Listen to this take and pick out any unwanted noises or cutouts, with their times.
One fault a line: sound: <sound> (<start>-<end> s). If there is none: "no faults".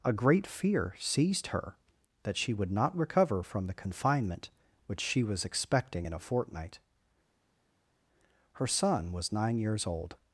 no faults